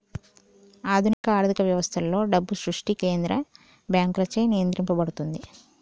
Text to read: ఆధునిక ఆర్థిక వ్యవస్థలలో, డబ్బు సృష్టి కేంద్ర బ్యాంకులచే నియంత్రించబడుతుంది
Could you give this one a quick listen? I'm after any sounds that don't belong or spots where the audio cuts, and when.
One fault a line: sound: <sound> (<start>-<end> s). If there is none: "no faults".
sound: dropout (1.1-1.2 s)